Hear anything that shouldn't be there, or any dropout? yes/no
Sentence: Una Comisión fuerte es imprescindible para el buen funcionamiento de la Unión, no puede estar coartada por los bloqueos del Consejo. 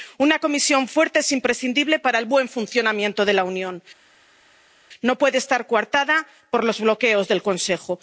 no